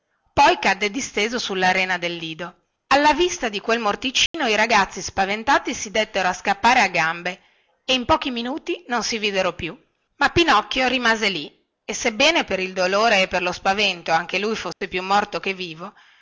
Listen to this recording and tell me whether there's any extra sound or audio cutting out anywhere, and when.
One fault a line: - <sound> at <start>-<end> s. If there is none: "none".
- dropout at 4.3-4.3 s
- dropout at 14.7-14.8 s